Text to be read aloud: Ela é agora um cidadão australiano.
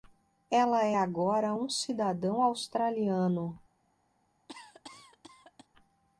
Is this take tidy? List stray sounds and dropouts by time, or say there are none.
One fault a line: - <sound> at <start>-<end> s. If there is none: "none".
- cough at 4.5-5.7 s